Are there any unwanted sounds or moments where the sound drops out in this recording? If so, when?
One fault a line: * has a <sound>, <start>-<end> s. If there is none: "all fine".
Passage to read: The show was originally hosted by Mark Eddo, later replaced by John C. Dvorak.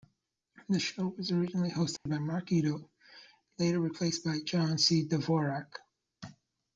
* has a dropout, 2.0-2.1 s